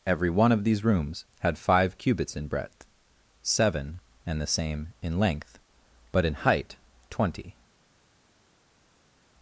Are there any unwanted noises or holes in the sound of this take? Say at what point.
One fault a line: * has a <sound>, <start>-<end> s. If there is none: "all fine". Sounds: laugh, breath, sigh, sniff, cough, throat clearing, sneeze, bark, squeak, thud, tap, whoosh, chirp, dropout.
all fine